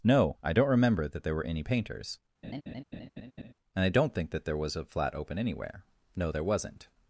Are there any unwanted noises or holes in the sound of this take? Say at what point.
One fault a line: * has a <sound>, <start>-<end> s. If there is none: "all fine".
* has a laugh, 2.4-3.5 s